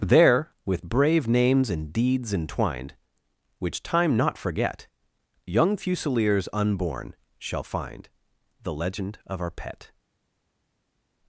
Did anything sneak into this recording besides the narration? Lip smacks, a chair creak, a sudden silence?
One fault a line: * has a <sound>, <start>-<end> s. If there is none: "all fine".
all fine